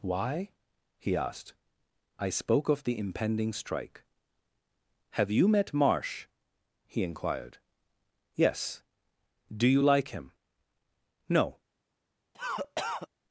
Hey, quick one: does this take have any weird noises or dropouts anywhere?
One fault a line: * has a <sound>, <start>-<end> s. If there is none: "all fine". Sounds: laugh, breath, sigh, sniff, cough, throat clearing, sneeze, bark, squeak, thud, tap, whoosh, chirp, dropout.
* has a cough, 12.3-13.1 s